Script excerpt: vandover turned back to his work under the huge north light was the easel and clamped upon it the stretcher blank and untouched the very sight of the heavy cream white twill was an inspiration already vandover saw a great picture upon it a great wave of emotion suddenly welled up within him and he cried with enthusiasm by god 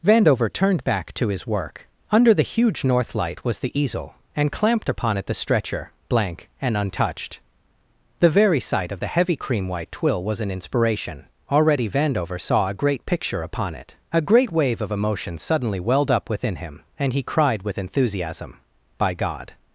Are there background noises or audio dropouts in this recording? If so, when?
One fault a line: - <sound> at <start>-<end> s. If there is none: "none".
none